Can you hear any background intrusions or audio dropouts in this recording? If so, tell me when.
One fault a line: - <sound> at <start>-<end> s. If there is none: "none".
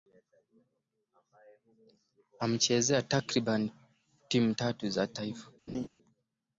- laugh at 5.7-5.9 s